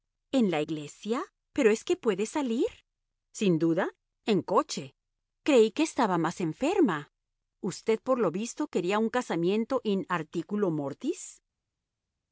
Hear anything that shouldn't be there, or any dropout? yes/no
no